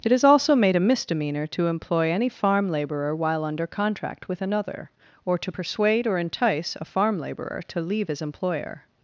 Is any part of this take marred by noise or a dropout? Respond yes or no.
no